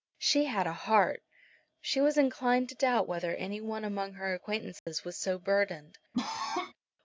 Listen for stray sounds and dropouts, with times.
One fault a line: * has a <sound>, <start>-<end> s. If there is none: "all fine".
* has a dropout, 4.8-4.9 s
* has a cough, 6.1-6.7 s